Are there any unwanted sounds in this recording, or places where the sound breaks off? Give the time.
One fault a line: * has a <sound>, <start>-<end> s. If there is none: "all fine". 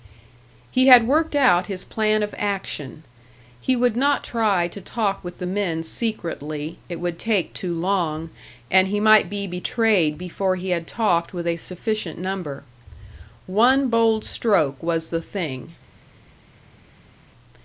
all fine